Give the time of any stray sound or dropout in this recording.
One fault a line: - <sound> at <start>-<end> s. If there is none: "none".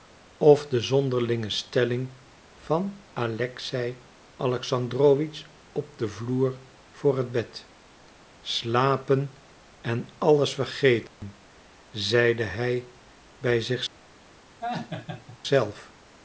- dropout at 11.1-11.2 s
- laugh at 14.6-15.4 s